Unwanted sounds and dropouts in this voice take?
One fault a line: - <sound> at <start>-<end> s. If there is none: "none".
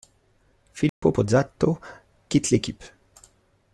- dropout at 0.9-1.0 s